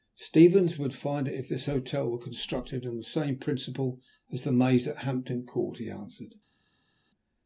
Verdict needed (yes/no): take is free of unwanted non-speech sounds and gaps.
yes